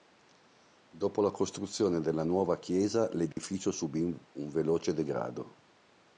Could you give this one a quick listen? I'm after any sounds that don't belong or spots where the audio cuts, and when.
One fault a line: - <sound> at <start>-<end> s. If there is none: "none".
- dropout at 3.3-3.4 s